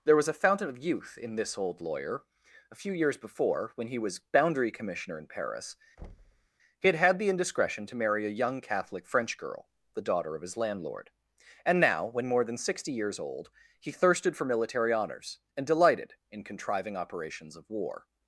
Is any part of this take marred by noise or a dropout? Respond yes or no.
yes